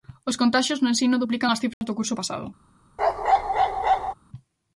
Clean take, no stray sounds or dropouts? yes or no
no